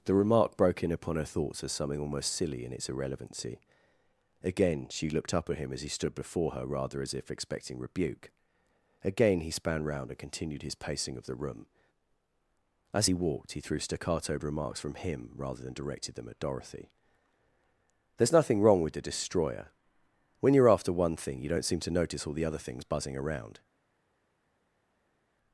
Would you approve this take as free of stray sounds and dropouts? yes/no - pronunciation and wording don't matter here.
yes